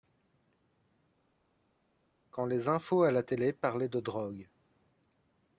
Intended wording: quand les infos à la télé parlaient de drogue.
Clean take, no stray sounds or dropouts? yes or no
yes